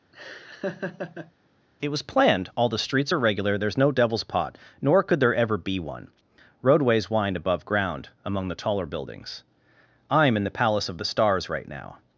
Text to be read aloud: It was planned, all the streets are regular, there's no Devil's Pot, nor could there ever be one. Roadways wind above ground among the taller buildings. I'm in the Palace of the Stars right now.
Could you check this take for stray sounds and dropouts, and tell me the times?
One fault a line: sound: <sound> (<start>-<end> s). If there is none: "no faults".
sound: laugh (0.1-1.3 s)